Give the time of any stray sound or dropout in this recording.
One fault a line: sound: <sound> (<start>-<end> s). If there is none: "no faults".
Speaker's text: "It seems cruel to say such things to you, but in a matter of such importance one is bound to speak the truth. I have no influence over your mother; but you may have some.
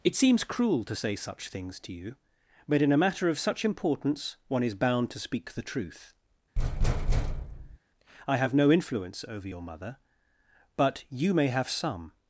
sound: thud (6.6-7.8 s)